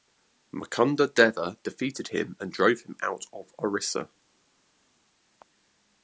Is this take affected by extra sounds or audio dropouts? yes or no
no